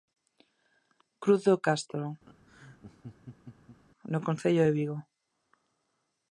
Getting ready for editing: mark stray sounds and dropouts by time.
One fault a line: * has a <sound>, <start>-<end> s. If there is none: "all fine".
* has a laugh, 2.2-3.8 s